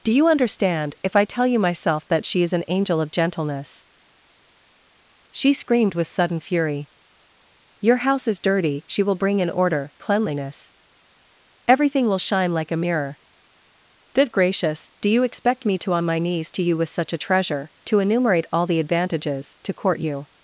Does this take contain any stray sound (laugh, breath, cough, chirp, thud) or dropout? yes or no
no